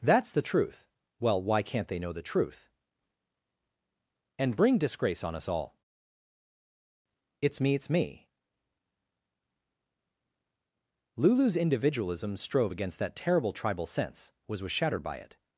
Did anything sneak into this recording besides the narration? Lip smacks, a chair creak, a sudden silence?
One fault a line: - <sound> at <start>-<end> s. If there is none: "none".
none